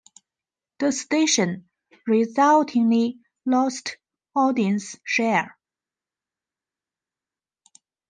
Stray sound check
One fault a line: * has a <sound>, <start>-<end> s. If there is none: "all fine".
all fine